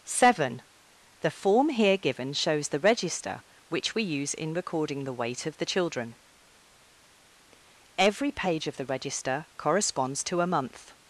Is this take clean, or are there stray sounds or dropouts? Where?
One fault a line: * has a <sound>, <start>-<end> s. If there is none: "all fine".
all fine